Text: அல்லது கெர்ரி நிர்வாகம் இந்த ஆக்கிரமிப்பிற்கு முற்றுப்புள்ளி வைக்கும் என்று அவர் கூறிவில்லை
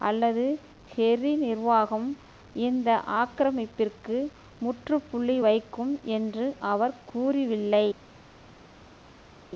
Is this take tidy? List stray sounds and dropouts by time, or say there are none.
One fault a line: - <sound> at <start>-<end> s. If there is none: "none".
none